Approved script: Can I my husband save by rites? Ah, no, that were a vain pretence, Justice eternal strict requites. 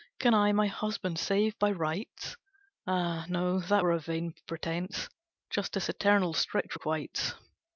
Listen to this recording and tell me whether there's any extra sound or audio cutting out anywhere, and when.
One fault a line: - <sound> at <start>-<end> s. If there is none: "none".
none